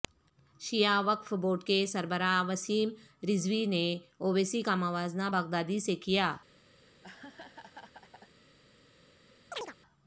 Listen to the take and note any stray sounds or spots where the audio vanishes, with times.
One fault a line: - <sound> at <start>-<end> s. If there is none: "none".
- laugh at 6.8-8.4 s
- chirp at 9.5-9.7 s